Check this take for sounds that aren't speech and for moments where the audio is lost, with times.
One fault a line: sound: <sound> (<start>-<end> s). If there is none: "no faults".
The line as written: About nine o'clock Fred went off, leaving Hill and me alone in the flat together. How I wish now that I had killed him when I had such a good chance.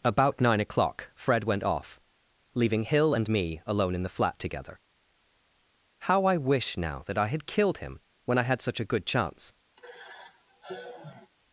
sound: sigh (9.8-11.3 s)